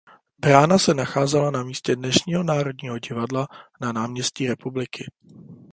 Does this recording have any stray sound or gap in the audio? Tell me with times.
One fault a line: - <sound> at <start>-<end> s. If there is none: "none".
none